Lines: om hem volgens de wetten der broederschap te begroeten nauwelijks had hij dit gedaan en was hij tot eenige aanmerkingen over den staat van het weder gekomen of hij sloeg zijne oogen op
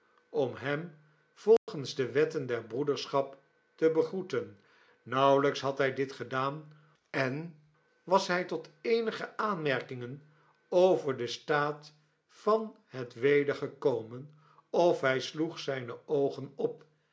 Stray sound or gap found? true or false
true